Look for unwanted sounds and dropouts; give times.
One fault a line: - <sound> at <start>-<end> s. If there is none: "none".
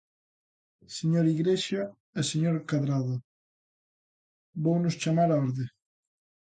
none